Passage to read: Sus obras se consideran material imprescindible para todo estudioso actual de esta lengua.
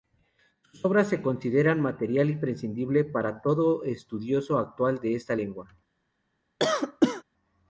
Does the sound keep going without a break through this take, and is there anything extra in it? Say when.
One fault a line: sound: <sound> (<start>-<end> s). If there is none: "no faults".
sound: cough (6.6-7.2 s)